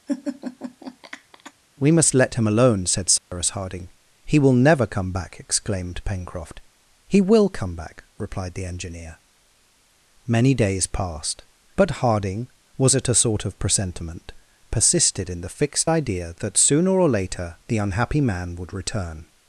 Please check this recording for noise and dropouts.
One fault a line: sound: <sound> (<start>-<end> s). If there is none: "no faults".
sound: laugh (0.1-1.5 s)
sound: dropout (3.2-3.3 s)